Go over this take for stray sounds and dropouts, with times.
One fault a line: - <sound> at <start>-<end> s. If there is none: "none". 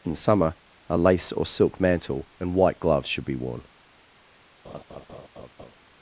- laugh at 4.6-5.8 s